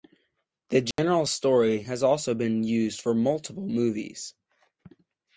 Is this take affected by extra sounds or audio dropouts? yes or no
yes